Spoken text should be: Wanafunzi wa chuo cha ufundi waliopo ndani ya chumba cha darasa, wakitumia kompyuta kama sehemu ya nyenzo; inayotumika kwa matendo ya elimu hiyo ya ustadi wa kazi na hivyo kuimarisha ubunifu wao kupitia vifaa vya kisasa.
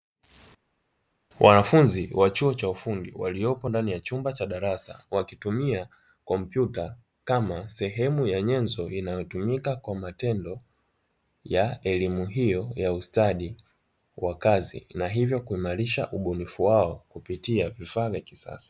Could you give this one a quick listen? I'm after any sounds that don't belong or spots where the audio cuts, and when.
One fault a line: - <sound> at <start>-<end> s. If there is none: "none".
none